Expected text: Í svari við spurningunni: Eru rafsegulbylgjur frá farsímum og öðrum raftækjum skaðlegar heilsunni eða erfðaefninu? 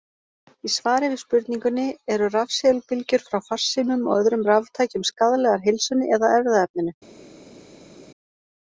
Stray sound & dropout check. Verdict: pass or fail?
pass